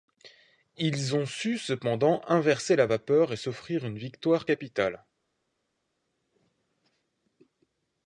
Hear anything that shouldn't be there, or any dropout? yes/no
no